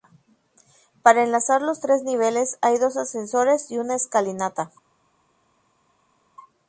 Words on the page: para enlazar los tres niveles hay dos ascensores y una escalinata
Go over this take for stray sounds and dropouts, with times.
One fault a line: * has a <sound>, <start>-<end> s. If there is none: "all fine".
all fine